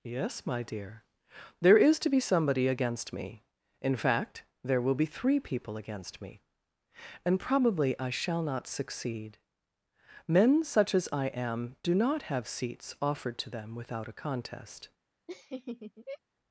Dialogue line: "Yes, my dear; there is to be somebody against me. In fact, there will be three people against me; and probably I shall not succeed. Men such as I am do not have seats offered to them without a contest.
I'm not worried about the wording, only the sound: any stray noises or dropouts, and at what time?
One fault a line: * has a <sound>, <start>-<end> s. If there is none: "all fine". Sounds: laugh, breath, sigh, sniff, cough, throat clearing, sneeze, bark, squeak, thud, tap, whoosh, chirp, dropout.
* has a laugh, 15.3-16.2 s